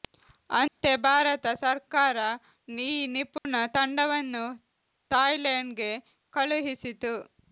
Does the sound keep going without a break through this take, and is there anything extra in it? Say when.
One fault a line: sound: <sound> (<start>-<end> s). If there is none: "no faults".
sound: dropout (0.7-0.8 s)
sound: dropout (3.4-3.4 s)